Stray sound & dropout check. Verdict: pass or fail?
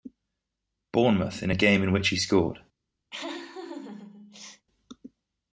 fail